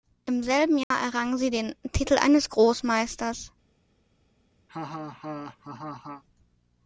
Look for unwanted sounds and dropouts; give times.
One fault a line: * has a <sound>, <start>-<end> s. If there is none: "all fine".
* has a dropout, 0.8-0.9 s
* has a laugh, 4.7-6.2 s